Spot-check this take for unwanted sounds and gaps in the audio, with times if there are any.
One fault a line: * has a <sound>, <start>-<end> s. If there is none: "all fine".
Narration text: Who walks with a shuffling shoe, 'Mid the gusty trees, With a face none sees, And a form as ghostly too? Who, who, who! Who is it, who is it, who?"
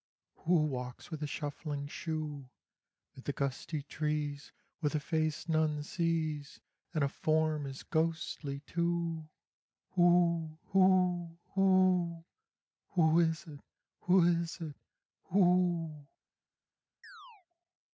* has a chirp, 17.0-17.5 s